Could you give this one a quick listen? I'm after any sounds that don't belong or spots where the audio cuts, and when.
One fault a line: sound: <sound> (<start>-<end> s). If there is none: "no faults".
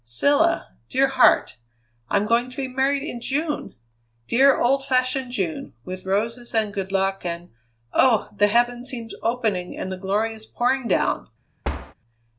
sound: thud (11.6-11.9 s)